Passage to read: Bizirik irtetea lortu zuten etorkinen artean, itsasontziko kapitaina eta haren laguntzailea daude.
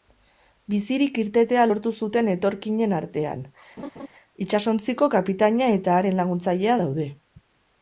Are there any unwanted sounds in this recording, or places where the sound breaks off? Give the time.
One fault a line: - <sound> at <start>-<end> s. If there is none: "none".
- laugh at 3.8-4.1 s